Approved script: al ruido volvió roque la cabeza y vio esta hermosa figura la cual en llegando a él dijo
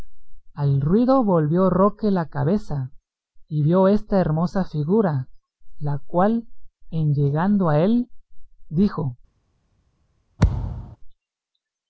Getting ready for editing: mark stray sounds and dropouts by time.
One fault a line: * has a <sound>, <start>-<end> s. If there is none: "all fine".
* has a thud, 10.4-11.0 s